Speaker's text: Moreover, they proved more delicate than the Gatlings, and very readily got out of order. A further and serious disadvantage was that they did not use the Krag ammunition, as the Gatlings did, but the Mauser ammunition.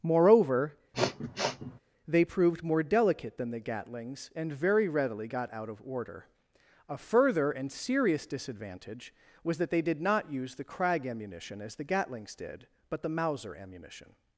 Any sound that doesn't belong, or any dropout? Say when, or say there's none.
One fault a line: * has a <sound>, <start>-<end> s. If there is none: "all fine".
* has a sniff, 0.9-1.8 s